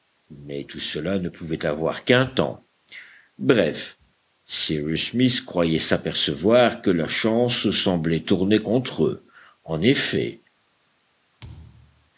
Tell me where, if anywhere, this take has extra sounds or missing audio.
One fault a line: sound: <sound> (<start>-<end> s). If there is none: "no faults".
sound: thud (11.4-12.1 s)